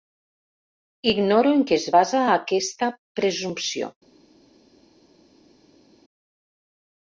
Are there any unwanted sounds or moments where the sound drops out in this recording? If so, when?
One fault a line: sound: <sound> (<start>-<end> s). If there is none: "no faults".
no faults